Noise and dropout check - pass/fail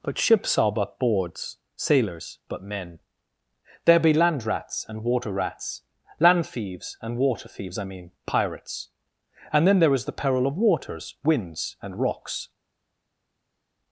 pass